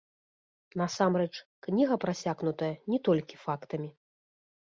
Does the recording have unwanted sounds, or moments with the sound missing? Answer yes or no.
no